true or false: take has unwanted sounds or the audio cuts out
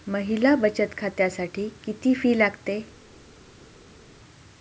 false